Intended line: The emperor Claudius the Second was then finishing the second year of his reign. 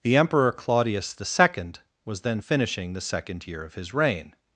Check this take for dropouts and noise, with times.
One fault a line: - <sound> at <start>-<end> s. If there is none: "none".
none